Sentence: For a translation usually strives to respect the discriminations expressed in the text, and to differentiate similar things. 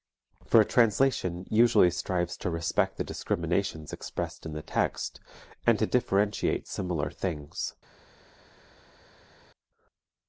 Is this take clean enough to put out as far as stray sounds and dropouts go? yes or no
yes